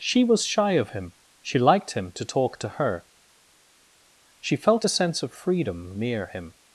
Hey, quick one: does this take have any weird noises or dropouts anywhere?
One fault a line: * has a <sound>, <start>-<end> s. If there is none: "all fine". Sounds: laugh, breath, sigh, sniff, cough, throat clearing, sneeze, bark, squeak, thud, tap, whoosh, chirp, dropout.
all fine